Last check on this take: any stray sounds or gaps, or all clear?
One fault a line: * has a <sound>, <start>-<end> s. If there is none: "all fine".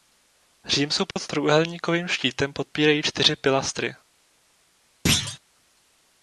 * has a dropout, 1.1-1.2 s
* has a thud, 5.1-5.4 s